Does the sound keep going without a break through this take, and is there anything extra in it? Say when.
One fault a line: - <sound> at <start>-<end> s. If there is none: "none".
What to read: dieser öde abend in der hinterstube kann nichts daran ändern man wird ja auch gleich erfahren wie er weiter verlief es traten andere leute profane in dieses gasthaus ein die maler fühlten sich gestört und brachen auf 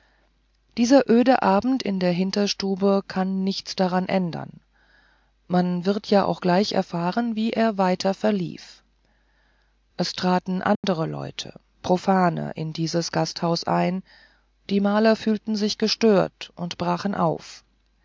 - dropout at 10.8-10.8 s